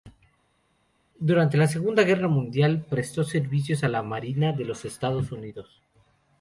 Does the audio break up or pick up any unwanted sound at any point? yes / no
no